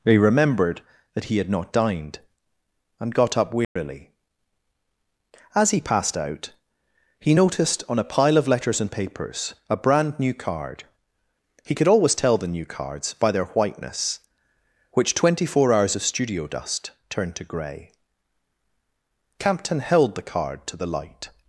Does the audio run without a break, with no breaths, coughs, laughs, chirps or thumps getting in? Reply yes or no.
no